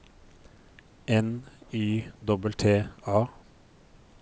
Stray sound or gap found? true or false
false